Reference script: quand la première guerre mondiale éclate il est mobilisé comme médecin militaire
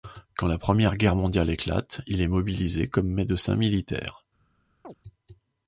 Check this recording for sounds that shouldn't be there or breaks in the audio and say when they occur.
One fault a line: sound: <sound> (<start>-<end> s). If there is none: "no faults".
sound: chirp (4.8-5.0 s)